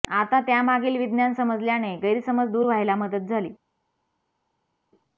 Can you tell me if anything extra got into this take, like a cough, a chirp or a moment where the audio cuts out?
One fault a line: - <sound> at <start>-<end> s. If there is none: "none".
none